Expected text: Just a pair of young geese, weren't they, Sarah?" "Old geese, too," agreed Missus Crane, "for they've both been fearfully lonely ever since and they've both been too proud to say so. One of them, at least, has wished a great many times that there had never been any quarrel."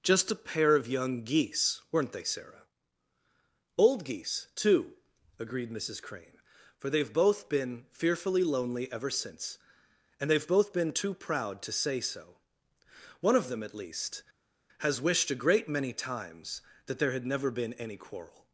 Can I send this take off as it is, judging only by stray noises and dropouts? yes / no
yes